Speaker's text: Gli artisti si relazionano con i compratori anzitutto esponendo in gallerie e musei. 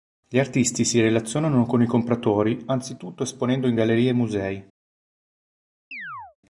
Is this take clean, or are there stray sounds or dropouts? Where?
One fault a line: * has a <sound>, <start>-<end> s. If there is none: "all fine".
* has a chirp, 5.9-6.4 s